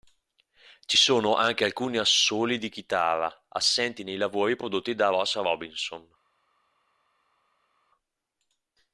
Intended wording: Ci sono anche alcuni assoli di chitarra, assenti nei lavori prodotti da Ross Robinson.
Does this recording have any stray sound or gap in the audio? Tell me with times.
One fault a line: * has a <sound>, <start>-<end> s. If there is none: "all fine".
all fine